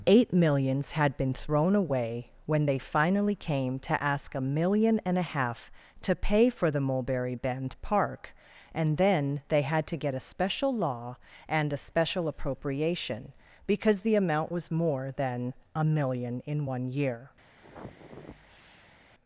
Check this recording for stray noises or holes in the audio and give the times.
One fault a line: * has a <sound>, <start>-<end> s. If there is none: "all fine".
* has a sniff, 17.6-19.0 s